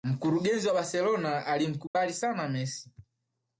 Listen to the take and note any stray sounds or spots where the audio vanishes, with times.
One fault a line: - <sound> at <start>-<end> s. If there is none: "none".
- dropout at 1.9-1.9 s